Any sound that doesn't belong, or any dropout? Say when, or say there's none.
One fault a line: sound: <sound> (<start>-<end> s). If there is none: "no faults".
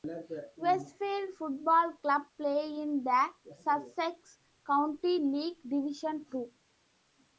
no faults